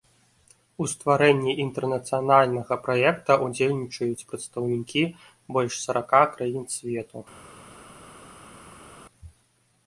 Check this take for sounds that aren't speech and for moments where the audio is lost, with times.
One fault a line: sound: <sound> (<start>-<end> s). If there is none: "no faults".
no faults